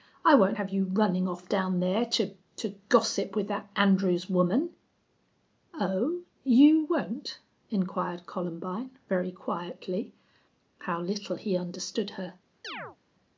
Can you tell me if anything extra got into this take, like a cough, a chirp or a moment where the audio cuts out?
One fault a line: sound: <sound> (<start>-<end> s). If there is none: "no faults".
sound: chirp (12.6-13.0 s)